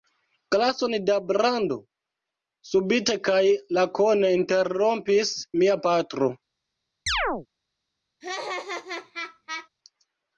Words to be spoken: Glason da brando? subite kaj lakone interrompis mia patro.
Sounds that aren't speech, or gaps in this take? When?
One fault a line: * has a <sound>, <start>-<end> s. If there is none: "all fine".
* has a chirp, 7.1-7.5 s
* has a laugh, 8.2-9.7 s